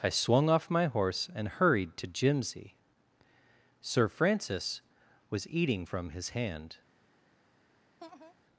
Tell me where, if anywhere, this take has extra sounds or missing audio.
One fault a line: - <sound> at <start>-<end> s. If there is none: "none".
- laugh at 8.0-8.3 s